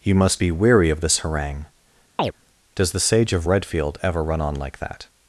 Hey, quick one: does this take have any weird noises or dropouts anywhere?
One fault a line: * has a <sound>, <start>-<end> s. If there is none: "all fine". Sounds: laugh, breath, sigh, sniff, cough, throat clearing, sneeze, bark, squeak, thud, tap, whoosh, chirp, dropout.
* has a chirp, 2.2-2.3 s